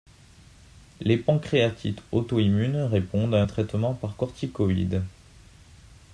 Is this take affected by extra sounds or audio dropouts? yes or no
no